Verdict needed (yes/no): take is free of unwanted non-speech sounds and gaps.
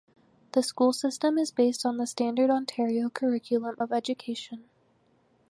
yes